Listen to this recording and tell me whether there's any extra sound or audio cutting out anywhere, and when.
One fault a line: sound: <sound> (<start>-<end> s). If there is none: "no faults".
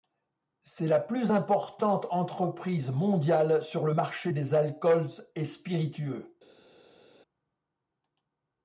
no faults